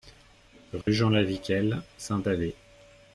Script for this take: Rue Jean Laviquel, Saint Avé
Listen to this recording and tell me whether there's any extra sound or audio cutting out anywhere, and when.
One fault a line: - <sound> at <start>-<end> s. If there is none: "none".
- dropout at 0.8-0.9 s